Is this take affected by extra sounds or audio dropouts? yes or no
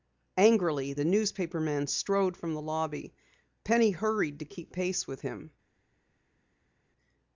no